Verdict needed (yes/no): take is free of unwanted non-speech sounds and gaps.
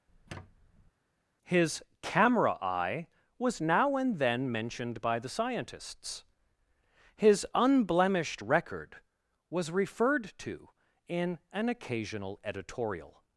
no